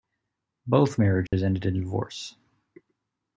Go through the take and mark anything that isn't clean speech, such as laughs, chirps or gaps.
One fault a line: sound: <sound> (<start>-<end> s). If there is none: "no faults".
sound: dropout (1.3-1.3 s)